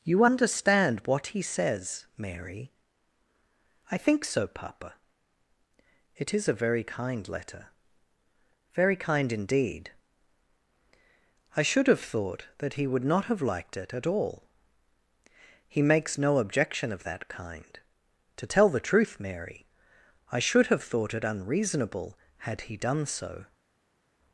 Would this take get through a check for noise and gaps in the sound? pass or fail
pass